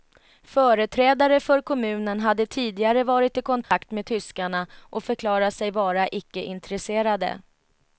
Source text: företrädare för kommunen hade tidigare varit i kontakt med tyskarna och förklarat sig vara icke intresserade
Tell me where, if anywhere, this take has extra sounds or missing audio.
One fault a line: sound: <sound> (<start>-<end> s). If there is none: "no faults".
sound: dropout (3.6-3.7 s)